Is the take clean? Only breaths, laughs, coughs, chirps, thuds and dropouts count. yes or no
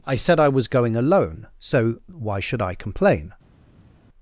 yes